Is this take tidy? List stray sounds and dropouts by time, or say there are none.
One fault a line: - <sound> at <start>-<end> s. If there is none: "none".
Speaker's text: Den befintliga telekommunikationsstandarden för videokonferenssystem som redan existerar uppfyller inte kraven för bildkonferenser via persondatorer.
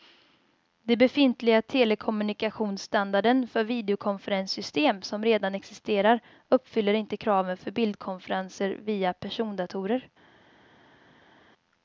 none